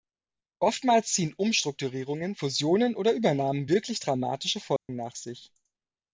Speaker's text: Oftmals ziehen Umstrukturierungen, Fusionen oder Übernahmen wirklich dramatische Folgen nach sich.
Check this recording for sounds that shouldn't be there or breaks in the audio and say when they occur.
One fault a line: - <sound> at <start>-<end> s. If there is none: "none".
- dropout at 4.8-4.9 s